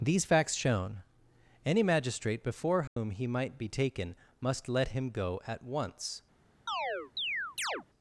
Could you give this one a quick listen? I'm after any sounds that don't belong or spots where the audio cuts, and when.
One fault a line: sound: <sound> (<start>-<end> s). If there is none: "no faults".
sound: dropout (2.9-3.0 s)
sound: chirp (6.7-7.8 s)